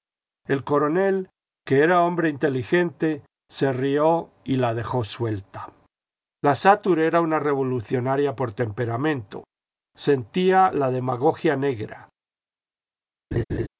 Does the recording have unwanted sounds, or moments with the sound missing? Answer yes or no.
yes